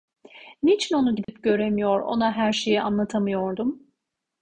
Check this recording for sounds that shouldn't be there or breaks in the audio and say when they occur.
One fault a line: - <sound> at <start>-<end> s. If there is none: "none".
- dropout at 1.2-1.3 s